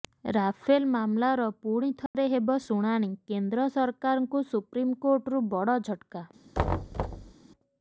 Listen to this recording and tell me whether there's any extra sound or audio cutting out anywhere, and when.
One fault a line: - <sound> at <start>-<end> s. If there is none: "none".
- dropout at 2.1-2.1 s
- thud at 6.5-7.3 s